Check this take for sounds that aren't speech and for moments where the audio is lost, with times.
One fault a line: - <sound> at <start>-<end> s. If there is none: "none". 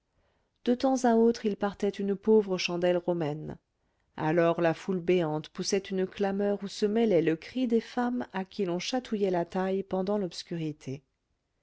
none